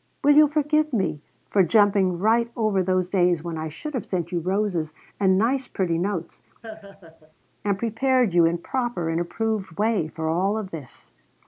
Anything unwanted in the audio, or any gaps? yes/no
yes